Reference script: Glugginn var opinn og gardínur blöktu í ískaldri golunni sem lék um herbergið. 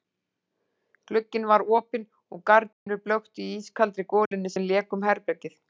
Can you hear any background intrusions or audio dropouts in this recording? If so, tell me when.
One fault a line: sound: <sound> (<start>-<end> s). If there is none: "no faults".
sound: dropout (2.7-2.9 s)
sound: dropout (4.3-4.3 s)